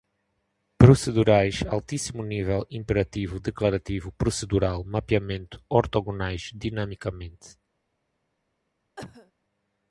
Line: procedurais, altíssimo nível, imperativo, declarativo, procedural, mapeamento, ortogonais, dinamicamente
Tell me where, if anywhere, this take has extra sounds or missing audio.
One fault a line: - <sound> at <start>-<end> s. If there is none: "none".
- cough at 9.0-9.3 s